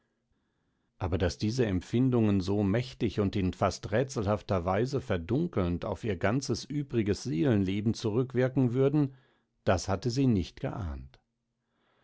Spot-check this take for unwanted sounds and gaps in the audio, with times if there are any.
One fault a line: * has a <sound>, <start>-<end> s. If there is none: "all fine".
all fine